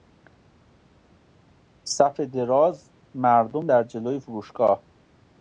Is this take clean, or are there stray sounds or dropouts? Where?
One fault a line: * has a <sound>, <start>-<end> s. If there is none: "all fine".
all fine